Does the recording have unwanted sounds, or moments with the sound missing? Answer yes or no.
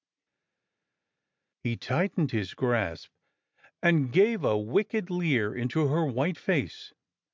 no